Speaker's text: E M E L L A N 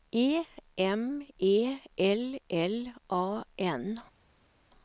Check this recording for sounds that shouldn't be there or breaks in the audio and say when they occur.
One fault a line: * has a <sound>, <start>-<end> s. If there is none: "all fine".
all fine